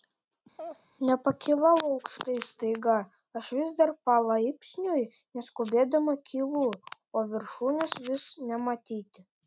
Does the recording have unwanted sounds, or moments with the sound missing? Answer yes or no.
yes